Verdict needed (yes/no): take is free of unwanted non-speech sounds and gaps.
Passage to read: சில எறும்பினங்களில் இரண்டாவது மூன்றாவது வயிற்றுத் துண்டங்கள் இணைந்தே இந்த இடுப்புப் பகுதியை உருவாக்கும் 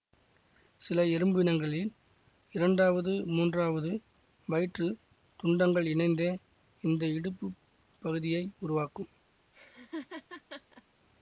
no